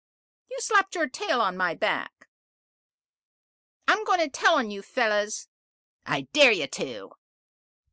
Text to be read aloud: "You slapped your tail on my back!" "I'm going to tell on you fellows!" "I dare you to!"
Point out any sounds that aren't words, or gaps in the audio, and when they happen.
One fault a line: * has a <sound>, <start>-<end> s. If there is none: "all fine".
all fine